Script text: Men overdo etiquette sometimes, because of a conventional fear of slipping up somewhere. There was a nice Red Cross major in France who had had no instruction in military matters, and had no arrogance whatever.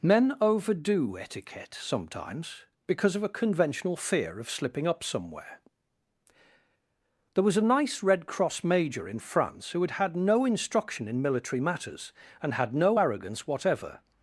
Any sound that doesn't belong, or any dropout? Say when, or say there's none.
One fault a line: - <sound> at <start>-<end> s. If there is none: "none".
none